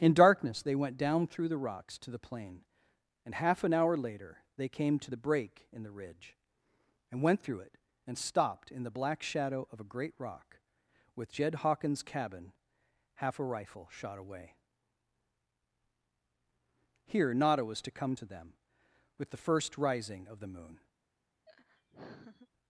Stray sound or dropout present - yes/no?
yes